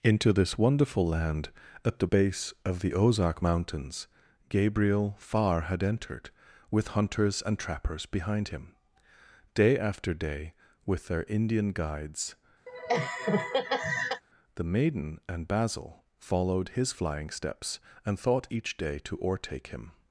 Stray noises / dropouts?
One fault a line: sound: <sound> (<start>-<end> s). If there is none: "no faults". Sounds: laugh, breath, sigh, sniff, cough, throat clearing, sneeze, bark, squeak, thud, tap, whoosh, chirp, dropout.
sound: laugh (12.7-14.2 s)